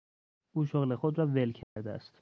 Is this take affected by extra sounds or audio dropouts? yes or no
yes